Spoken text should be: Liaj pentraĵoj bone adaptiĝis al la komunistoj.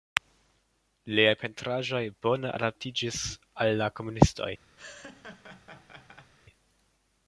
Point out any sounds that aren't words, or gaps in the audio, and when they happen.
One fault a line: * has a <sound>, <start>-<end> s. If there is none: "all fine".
* has a laugh, 4.8-6.3 s